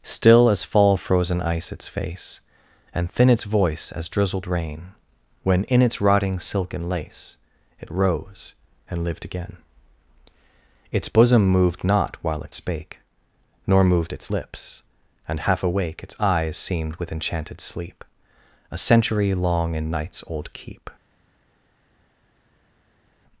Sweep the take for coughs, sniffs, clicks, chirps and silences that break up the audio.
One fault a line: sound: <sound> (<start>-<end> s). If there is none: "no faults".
no faults